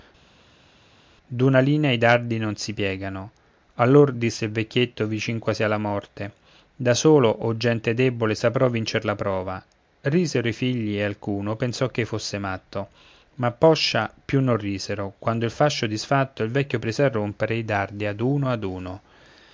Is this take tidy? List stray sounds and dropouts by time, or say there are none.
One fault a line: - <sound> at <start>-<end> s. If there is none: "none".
none